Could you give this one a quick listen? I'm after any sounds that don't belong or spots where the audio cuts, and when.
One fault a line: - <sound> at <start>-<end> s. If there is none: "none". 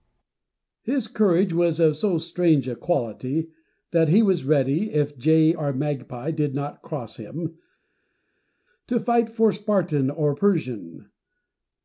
none